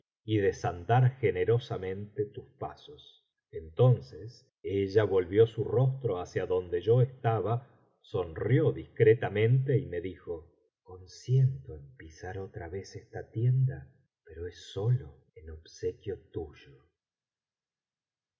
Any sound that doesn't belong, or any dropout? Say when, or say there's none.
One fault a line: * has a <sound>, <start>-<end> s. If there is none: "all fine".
all fine